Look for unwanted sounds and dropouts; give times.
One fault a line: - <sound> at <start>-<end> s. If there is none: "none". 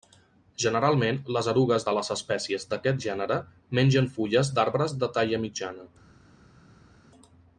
none